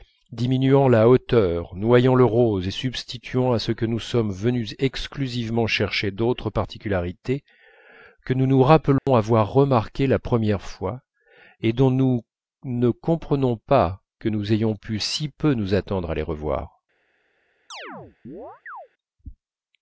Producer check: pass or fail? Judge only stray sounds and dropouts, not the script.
fail